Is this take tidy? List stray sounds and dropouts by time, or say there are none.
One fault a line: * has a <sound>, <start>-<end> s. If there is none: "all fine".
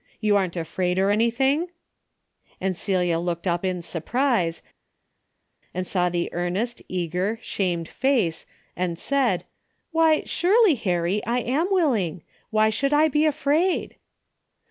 all fine